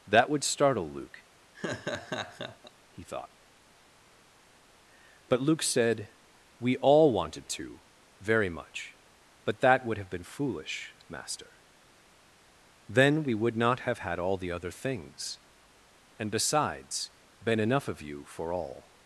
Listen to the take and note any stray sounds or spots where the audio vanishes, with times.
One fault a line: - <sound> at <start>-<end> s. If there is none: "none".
- laugh at 1.5-2.7 s